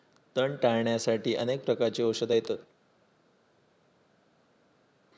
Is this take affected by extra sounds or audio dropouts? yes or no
no